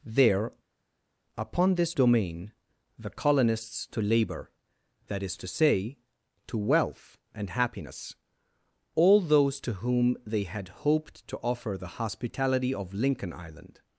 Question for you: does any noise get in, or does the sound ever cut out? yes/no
no